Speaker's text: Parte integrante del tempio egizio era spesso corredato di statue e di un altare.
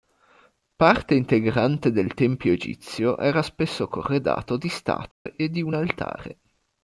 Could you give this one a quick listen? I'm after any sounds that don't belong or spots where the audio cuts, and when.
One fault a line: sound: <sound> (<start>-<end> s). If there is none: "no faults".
sound: dropout (5.1-5.3 s)